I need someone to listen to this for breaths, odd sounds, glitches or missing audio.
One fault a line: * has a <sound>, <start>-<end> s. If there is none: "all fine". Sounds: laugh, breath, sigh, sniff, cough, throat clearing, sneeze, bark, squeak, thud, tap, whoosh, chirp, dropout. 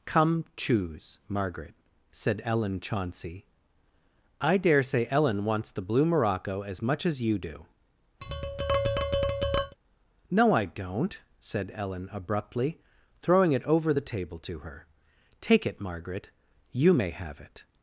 * has a tap, 8.2-9.8 s